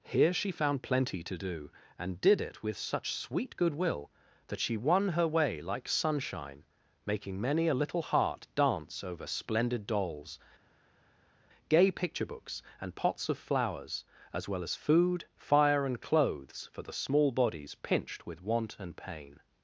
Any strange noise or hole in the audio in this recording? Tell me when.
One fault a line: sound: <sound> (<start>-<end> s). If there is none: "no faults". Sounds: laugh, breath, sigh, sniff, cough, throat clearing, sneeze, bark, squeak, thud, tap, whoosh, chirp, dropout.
no faults